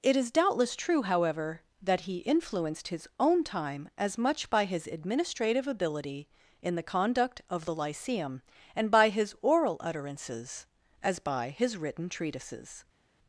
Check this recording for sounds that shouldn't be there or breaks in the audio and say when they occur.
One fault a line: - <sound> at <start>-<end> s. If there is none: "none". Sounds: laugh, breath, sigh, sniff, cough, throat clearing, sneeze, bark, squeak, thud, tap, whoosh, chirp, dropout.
none